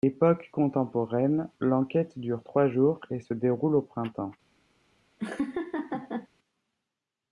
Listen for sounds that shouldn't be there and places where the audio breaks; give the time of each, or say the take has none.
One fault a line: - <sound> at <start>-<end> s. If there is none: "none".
- laugh at 5.2-6.3 s